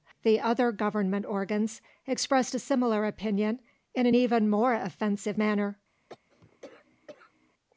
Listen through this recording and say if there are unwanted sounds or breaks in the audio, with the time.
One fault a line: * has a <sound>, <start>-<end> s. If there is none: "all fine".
* has a cough, 6.1-7.5 s